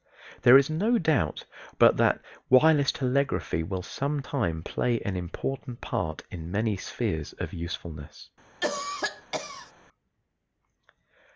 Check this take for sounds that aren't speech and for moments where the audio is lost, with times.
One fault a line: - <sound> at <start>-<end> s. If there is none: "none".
- cough at 8.6-9.7 s